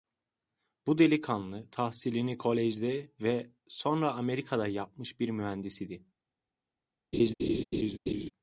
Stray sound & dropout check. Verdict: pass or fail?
fail